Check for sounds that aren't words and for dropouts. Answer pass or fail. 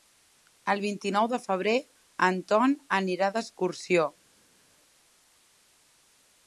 pass